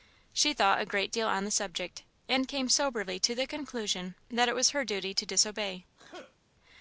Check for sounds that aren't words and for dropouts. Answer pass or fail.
fail